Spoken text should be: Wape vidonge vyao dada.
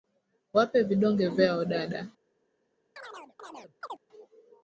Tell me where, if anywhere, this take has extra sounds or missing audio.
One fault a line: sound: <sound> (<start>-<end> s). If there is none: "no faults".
sound: chirp (3.0-4.0 s)